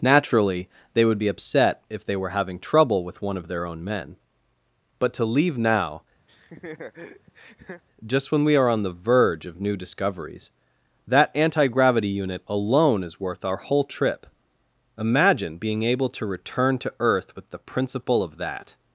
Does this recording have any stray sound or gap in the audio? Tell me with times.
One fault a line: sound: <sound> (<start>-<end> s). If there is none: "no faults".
sound: laugh (6.3-7.8 s)